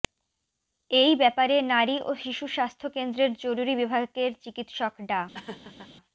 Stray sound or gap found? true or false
true